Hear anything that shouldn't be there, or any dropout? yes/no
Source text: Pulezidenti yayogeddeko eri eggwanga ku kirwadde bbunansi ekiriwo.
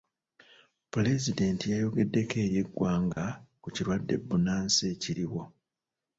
yes